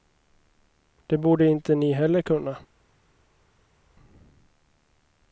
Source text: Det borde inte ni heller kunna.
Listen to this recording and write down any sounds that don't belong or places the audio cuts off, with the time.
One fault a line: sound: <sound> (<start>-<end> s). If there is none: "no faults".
no faults